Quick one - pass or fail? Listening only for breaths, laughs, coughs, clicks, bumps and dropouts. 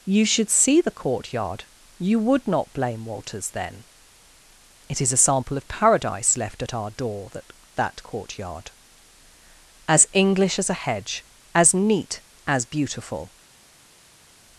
pass